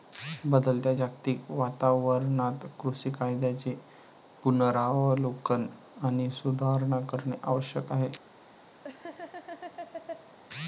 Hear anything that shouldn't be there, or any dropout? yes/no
yes